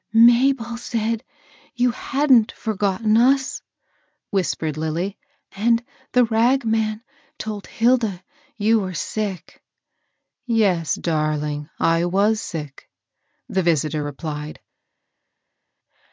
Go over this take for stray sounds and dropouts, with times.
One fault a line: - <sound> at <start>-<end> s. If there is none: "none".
none